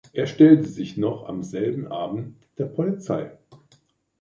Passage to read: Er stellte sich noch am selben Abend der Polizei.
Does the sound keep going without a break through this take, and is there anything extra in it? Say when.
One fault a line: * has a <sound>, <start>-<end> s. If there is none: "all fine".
all fine